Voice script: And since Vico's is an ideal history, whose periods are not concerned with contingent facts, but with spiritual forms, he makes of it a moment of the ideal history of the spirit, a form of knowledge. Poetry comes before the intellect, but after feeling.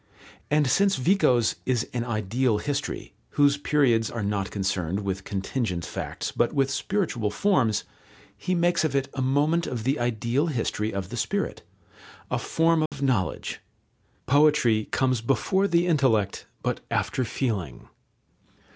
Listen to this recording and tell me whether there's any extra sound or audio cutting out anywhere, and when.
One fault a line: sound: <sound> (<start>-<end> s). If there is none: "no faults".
sound: dropout (12.9-12.9 s)